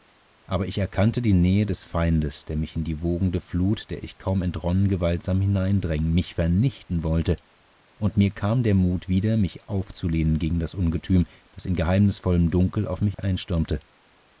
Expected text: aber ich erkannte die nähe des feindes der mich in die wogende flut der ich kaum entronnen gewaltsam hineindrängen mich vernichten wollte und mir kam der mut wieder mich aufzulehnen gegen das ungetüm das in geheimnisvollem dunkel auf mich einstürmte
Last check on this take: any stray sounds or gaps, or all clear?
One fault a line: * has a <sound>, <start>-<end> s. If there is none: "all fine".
* has a dropout, 13.1-13.2 s